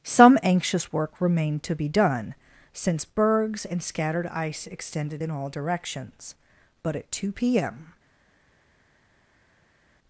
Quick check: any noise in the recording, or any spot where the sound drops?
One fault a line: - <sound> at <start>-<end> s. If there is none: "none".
none